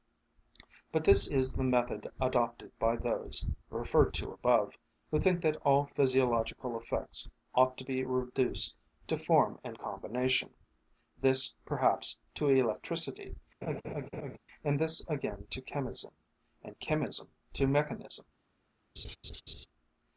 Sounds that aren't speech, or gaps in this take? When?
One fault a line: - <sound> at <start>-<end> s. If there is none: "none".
- laugh at 13.6-14.4 s
- laugh at 19.0-19.7 s